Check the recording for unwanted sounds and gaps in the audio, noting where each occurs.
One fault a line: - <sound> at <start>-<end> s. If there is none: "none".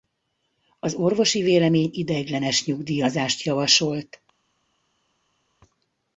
none